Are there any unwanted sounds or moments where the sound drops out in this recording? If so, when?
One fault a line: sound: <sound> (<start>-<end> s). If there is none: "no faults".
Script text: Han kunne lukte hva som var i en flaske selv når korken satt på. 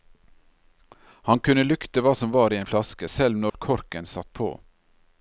sound: dropout (3.5-3.5 s)